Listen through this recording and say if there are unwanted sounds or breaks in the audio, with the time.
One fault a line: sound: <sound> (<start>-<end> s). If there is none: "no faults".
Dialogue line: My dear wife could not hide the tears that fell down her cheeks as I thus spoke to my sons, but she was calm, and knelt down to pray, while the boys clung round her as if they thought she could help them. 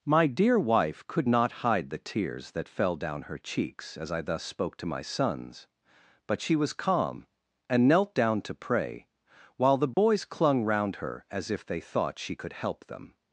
sound: dropout (9.9-10.0 s)